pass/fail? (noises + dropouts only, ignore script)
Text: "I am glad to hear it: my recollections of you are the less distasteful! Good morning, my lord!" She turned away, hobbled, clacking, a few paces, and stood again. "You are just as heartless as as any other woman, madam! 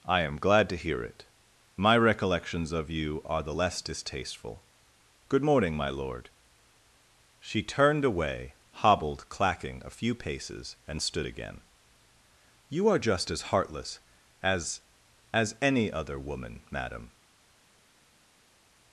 pass